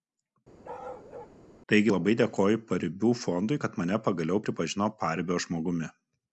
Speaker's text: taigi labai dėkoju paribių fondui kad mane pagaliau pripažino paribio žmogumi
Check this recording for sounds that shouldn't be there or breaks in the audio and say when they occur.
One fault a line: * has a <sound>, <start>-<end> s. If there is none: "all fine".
* has a bark, 0.6-1.4 s